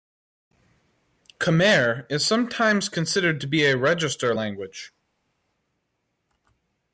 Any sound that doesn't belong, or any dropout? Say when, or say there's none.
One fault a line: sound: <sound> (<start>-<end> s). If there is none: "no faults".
no faults